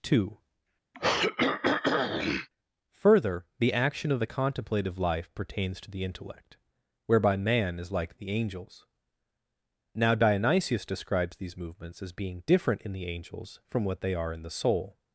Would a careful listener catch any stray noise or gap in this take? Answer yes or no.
yes